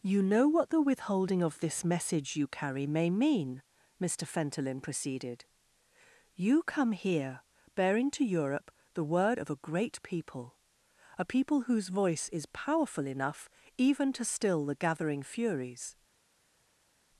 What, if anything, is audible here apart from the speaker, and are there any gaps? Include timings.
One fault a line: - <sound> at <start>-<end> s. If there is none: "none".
none